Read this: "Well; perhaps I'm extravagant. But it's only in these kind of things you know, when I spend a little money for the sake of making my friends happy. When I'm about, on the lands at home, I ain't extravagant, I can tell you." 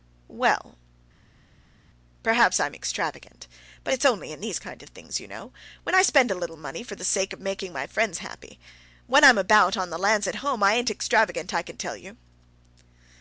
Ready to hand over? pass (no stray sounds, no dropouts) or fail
pass